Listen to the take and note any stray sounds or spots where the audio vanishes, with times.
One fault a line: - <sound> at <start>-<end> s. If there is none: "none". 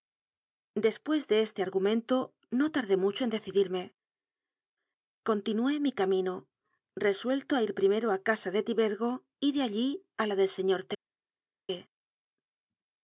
none